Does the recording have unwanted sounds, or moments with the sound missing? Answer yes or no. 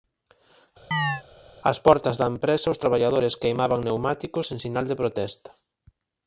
yes